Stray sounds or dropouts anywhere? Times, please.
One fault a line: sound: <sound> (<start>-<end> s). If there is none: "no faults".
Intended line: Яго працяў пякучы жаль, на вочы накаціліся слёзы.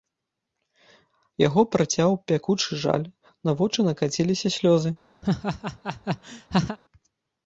sound: laugh (5.2-6.8 s)